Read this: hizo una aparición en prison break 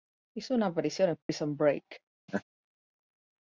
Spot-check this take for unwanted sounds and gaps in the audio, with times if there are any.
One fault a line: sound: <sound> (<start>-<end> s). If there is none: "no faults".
sound: dropout (1.2-1.3 s)
sound: laugh (2.3-2.4 s)